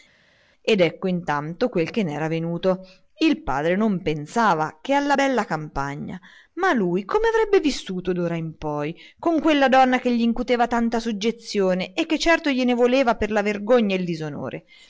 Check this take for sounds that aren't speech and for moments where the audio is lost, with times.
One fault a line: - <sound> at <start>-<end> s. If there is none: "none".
none